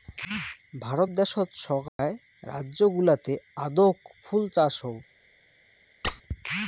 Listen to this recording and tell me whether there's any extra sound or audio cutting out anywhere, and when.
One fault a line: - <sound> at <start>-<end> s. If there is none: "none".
- dropout at 1.9-2.0 s
- squeak at 6.0-6.2 s